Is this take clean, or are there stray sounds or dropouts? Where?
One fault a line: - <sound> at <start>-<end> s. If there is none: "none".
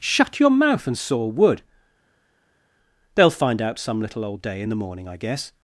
none